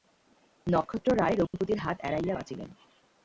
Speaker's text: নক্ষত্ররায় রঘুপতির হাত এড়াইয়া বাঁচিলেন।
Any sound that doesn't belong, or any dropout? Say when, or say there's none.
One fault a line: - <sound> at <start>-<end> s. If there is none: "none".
- dropout at 1.5-1.5 s